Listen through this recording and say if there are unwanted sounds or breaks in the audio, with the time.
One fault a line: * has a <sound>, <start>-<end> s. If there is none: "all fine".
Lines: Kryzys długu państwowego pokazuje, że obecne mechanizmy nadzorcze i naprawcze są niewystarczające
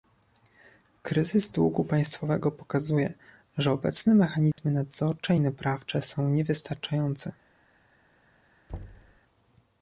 * has a dropout, 4.5-4.6 s
* has a thud, 8.7-9.2 s